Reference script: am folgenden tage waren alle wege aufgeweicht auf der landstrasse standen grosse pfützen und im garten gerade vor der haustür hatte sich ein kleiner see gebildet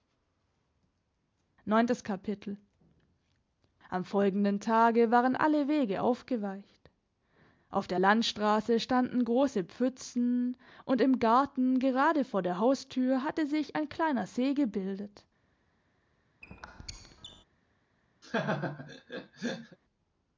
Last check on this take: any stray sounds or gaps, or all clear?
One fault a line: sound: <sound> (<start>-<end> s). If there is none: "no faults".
sound: squeak (16.4-17.4 s)
sound: laugh (18.2-19.8 s)